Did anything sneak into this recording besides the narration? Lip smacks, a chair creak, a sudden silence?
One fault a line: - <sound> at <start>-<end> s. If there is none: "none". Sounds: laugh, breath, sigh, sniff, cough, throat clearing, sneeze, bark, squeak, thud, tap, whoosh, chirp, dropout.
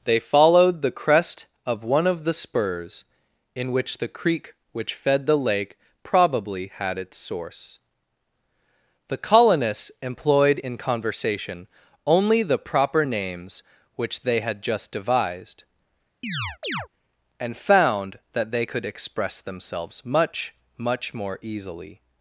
- chirp at 16.2-16.9 s